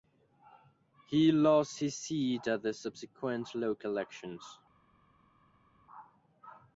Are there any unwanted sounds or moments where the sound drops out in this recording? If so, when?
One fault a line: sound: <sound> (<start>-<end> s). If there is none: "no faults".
no faults